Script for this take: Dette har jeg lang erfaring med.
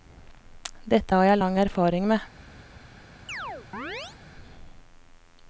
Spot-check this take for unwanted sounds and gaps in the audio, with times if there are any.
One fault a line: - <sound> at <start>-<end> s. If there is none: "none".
- chirp at 3.3-4.2 s